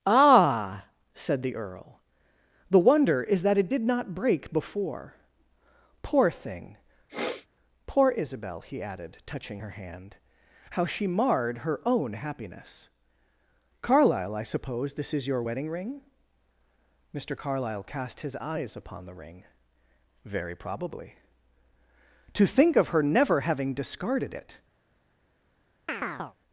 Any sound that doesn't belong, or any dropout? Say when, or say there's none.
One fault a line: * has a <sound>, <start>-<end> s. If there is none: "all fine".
* has a sniff, 7.1-7.5 s
* has a chirp, 25.9-26.4 s